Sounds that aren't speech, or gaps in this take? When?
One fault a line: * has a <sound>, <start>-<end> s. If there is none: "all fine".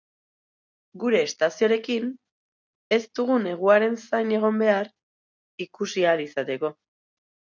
all fine